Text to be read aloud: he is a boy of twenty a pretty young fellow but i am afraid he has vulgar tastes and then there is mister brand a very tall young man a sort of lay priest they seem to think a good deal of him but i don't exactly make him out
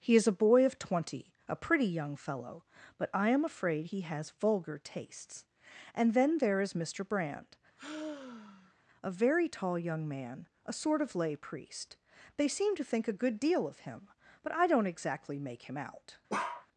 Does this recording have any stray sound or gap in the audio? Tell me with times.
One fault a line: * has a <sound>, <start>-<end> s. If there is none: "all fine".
* has a sigh, 7.8-8.7 s
* has a bark, 16.3-16.7 s